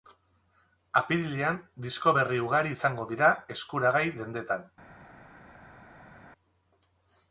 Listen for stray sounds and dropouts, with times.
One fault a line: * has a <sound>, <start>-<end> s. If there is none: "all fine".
all fine